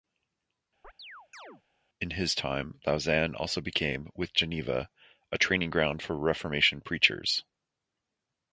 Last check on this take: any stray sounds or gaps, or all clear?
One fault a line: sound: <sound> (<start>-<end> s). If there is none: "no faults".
sound: chirp (0.8-1.6 s)